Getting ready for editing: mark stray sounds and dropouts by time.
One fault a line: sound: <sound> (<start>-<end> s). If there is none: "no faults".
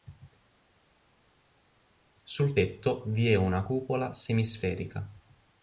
no faults